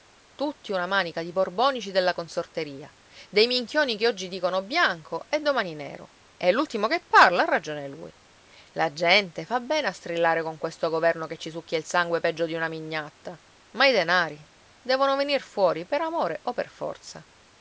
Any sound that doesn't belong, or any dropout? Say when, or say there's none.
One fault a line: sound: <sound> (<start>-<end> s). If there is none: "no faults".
no faults